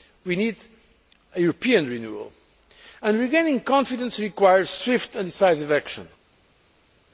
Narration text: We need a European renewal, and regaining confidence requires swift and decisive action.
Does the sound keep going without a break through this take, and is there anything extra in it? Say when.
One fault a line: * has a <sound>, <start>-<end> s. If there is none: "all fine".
all fine